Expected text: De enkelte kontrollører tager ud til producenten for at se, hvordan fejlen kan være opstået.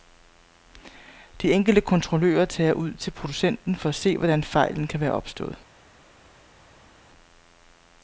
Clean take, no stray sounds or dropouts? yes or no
yes